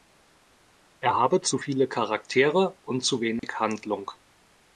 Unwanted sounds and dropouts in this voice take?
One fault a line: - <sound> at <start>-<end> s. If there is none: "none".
- dropout at 3.4-3.4 s